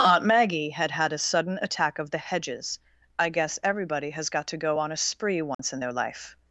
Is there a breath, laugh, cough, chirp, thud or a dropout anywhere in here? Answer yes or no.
yes